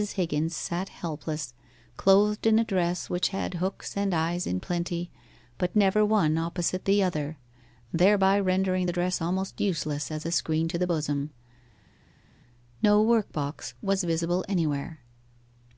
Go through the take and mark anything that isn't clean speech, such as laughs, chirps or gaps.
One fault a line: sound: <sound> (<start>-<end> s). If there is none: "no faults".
no faults